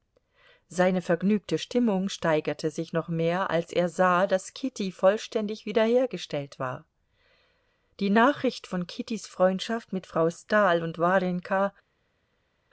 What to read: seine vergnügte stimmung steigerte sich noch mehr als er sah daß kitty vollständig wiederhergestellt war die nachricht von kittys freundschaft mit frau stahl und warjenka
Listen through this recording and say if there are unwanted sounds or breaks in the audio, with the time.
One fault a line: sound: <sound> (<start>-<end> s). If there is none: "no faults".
no faults